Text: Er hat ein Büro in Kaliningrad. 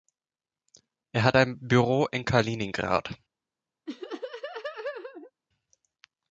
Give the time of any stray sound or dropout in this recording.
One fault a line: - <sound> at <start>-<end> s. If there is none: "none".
- laugh at 3.9-5.3 s